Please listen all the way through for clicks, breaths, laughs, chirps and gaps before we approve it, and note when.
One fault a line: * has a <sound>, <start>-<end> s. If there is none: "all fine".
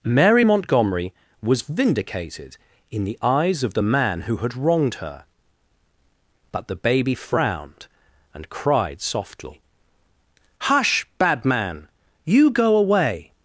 all fine